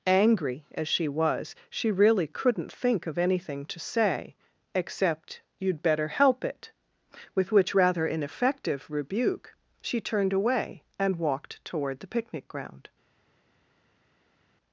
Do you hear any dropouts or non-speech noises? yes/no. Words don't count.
no